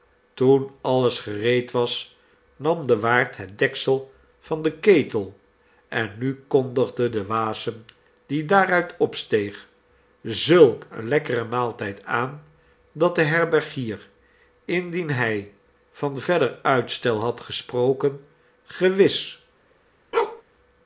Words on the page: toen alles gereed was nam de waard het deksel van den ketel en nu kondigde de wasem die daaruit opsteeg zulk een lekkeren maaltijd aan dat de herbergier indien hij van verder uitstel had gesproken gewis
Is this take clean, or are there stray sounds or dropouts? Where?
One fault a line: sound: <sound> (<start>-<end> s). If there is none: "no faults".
sound: bark (20.1-20.4 s)